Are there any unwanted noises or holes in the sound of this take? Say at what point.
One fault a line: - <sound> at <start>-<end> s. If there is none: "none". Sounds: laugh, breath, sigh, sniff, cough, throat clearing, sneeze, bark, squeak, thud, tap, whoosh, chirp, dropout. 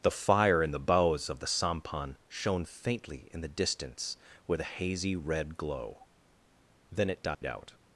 - dropout at 7.3-7.4 s